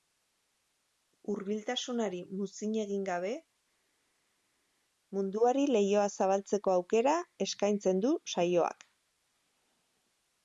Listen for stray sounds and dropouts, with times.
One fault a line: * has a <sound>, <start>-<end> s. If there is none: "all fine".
all fine